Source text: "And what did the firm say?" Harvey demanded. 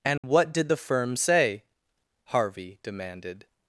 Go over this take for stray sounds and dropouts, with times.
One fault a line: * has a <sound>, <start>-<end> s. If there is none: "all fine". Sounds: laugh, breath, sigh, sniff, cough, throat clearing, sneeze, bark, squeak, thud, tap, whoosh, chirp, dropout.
* has a dropout, 0.2-0.2 s